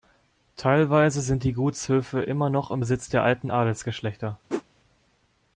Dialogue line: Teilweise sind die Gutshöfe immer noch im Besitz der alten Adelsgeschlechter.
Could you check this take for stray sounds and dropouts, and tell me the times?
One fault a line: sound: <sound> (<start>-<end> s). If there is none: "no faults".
sound: whoosh (4.5-4.6 s)